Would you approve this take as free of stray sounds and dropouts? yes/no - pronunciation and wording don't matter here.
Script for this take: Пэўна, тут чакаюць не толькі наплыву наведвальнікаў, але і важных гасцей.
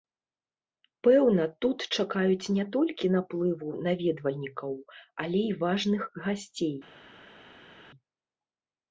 yes